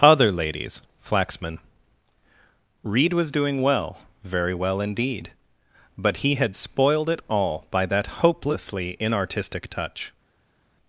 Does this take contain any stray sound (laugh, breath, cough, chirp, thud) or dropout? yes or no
no